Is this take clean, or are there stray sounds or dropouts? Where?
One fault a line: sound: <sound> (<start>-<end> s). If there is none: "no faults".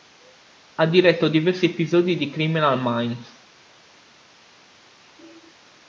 no faults